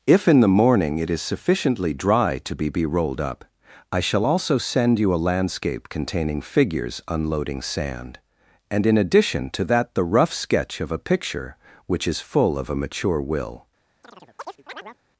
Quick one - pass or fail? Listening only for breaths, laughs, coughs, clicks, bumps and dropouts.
fail